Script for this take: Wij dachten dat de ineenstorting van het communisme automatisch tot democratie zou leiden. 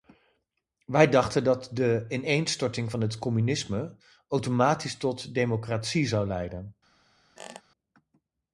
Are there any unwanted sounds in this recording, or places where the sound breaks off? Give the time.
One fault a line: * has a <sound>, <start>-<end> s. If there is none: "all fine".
* has a squeak, 7.4-7.6 s